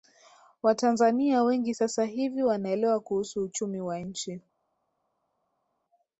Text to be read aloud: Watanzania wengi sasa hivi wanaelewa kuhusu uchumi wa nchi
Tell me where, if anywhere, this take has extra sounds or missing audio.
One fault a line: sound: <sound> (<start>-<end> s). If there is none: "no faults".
no faults